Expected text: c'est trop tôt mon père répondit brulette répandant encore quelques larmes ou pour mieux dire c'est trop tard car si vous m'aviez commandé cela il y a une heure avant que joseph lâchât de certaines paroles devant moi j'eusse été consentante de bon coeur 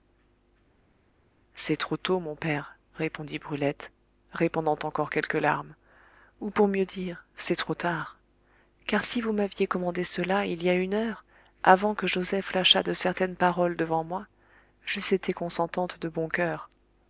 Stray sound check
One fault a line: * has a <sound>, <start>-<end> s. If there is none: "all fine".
all fine